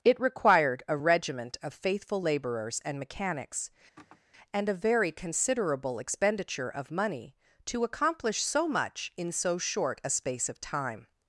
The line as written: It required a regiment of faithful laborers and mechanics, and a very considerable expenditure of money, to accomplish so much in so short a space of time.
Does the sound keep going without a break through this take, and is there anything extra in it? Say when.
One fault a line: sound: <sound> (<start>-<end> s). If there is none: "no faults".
sound: sigh (4.0-4.2 s)